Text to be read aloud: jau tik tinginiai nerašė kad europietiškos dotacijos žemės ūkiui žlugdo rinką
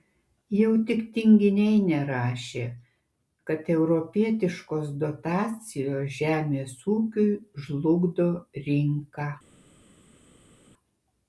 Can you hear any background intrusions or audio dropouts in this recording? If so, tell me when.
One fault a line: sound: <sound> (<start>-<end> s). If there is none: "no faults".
no faults